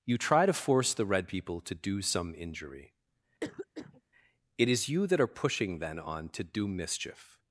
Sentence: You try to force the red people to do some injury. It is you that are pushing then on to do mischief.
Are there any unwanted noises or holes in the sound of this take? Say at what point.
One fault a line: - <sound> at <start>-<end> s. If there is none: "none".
- cough at 3.4-4.0 s